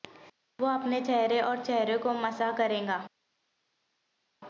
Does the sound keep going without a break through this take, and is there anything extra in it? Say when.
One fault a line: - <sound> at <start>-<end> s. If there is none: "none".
none